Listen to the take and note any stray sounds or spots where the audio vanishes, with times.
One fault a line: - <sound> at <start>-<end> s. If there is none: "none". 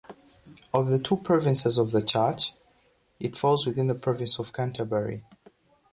none